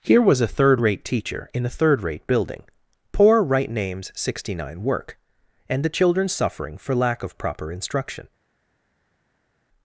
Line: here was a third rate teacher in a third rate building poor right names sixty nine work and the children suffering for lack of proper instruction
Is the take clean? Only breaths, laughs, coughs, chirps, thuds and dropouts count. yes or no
yes